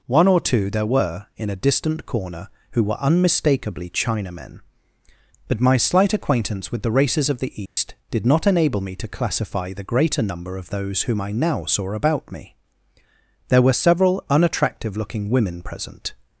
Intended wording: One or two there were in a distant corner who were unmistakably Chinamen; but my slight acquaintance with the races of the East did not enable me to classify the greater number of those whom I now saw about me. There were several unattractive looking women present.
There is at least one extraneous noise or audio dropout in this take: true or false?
true